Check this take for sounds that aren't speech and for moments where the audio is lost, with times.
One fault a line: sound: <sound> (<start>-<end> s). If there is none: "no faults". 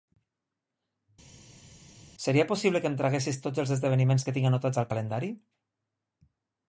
no faults